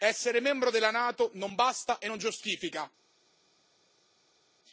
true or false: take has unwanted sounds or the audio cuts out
false